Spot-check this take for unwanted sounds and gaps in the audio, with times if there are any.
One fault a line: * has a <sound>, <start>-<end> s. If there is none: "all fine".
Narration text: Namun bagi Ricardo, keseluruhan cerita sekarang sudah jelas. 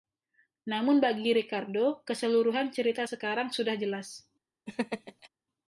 * has a laugh, 4.7-5.3 s